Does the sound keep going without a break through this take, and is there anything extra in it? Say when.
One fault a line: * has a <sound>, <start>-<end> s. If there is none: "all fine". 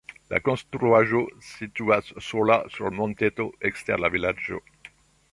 all fine